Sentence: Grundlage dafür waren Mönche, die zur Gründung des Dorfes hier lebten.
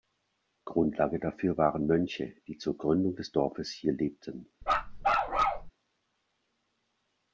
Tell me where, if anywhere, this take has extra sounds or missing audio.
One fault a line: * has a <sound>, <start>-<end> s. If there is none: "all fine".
* has a bark, 4.6-5.7 s